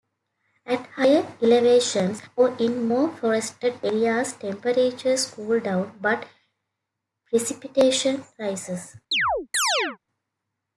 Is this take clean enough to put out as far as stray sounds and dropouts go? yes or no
no